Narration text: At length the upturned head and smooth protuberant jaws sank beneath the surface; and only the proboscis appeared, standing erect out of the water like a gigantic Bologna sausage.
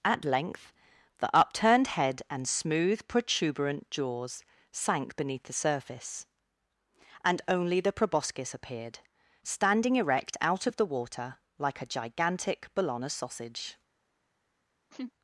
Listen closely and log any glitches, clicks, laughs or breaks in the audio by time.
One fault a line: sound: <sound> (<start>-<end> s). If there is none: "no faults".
sound: laugh (14.9-15.1 s)